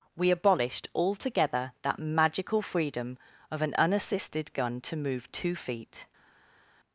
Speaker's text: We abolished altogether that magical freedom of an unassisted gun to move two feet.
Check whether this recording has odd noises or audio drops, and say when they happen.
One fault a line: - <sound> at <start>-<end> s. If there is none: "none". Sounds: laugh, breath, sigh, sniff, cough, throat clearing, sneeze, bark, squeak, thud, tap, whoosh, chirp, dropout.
none